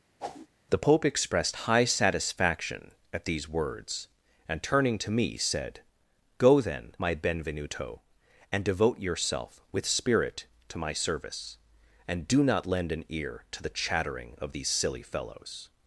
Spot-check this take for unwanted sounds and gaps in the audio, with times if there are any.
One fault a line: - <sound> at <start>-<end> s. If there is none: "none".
- whoosh at 0.2-0.5 s